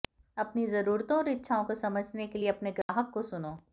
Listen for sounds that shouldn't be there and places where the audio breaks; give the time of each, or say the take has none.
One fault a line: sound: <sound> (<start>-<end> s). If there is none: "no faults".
sound: dropout (2.8-2.9 s)